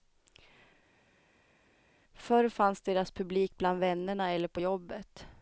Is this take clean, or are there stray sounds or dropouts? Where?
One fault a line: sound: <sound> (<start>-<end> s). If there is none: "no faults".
no faults